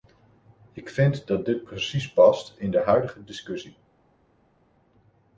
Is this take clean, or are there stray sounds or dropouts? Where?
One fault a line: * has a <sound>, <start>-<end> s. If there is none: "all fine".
all fine